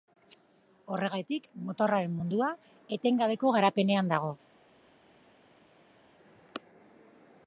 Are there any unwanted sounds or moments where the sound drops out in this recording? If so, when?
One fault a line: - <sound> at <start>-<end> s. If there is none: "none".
none